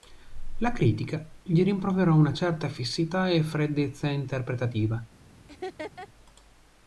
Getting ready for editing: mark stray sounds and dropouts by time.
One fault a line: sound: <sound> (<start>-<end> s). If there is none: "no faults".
sound: laugh (5.5-6.1 s)